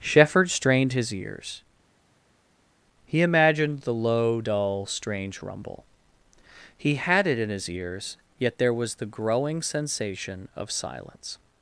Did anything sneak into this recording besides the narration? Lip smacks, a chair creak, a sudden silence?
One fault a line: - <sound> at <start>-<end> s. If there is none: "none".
none